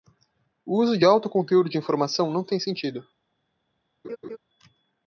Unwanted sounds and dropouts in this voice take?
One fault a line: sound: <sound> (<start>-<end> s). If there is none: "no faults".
sound: laugh (4.0-4.4 s)